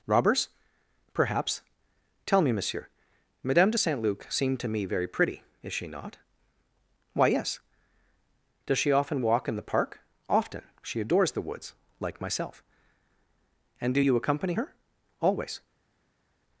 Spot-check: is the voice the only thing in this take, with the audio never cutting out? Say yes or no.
yes